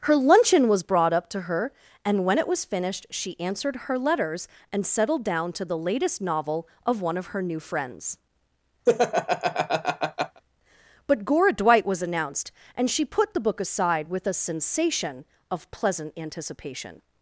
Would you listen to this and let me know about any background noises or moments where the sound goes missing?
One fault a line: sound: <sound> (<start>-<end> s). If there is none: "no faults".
sound: laugh (8.9-10.4 s)